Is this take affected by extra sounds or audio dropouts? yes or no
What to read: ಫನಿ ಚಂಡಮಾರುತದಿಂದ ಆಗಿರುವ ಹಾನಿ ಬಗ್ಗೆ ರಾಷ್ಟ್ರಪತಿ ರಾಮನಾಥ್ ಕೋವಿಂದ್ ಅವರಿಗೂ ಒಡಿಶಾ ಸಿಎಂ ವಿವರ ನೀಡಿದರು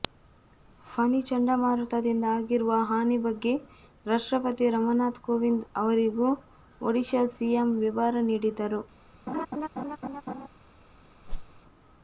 yes